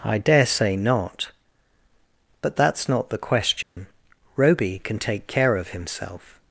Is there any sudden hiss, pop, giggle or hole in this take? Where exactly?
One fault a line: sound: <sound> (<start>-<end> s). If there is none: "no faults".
sound: dropout (3.6-3.8 s)